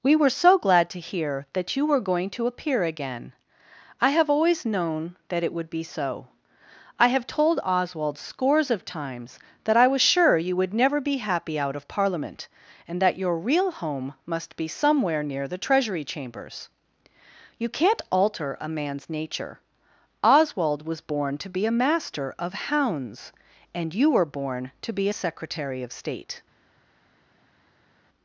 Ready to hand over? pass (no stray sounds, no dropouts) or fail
pass